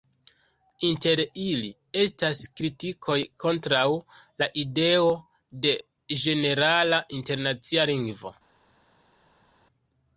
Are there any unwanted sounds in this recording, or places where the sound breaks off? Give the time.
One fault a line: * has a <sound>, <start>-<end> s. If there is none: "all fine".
all fine